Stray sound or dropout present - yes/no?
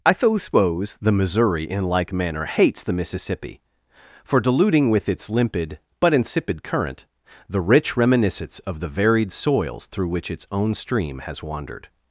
no